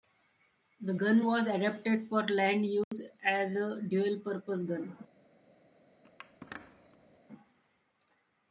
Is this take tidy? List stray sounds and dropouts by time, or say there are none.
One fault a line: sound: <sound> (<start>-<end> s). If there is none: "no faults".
sound: dropout (2.8-2.9 s)
sound: squeak (6.0-7.2 s)